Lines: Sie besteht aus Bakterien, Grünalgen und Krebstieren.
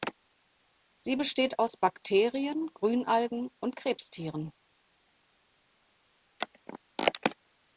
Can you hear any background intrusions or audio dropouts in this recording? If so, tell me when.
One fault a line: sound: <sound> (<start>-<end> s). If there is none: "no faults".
no faults